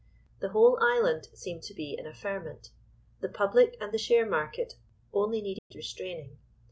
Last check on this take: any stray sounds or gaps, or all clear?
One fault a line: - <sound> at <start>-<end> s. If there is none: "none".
- dropout at 5.6-5.7 s